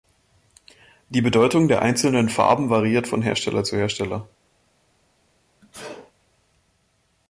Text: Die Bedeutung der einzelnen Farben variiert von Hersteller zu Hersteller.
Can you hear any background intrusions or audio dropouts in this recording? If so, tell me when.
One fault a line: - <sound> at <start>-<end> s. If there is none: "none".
- sneeze at 5.6-6.1 s